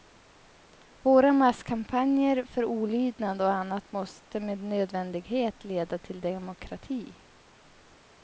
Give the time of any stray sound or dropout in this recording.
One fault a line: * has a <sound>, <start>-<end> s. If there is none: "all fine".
all fine